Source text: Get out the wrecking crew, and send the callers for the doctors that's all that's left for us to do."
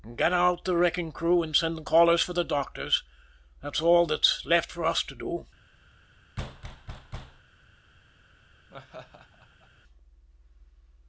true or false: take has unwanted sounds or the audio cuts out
true